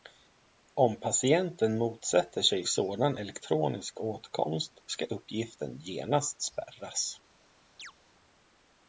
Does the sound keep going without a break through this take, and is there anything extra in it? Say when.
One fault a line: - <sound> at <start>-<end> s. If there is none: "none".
- chirp at 7.8-7.9 s